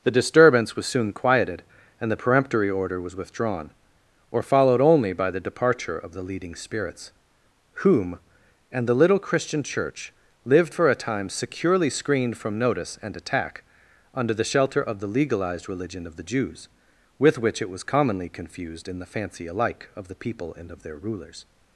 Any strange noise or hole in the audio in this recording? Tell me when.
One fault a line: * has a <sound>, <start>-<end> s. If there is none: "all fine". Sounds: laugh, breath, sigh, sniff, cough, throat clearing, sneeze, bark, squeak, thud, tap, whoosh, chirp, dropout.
all fine